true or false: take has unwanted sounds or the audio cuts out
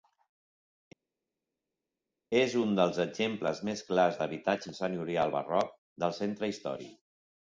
false